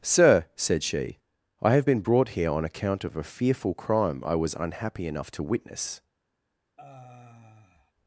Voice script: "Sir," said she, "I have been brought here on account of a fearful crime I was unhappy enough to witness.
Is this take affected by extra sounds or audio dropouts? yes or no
yes